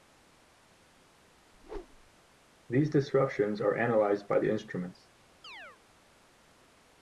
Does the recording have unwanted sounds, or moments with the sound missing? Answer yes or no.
yes